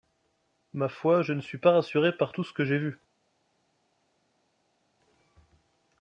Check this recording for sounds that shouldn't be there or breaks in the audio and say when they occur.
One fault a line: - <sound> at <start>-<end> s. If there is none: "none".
none